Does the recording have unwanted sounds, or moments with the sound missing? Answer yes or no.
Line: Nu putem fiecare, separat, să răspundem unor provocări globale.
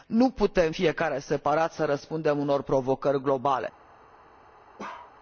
yes